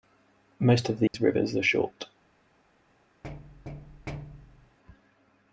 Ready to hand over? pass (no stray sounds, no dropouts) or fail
fail